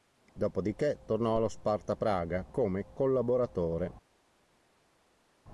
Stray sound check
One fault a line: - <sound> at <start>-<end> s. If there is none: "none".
none